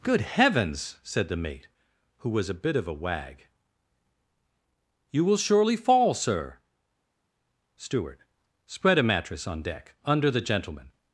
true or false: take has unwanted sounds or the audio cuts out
false